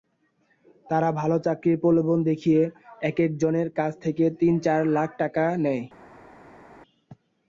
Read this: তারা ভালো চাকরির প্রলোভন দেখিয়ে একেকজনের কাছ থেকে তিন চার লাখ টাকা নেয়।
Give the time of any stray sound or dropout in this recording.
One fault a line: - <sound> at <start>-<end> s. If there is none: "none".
none